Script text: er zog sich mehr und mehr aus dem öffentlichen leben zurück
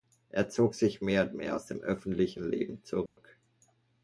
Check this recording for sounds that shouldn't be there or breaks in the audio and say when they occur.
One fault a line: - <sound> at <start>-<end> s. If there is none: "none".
- dropout at 3.1-3.2 s